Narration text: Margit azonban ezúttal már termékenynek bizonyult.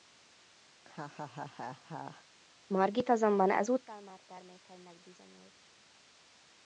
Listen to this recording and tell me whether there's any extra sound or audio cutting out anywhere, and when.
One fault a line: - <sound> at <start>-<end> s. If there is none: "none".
- laugh at 0.7-2.2 s